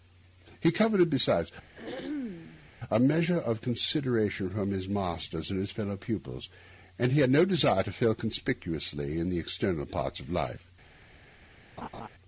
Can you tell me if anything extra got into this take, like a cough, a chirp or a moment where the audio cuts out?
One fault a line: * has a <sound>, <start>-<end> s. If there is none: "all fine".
* has a throat clearing, 1.8-2.7 s
* has a laugh, 11.8-12.1 s